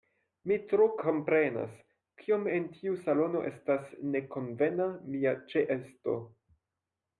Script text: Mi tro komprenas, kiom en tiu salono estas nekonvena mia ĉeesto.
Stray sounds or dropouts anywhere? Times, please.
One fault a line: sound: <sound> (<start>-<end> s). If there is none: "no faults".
no faults